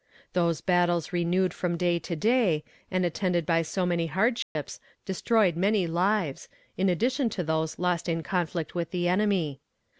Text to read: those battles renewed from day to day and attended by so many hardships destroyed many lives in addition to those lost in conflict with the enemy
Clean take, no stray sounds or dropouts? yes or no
no